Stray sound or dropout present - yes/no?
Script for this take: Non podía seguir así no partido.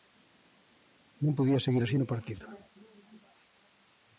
no